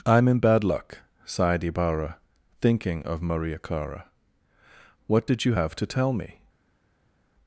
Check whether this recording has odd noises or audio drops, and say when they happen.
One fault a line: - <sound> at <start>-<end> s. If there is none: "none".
none